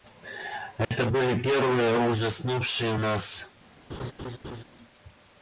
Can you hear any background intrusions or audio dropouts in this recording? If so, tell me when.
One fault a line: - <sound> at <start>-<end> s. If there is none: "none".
- dropout at 0.8-0.9 s
- laugh at 3.9-4.6 s